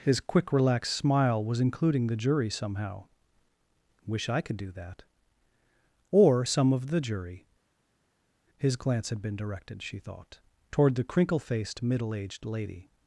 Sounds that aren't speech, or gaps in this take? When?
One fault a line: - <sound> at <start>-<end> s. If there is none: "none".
none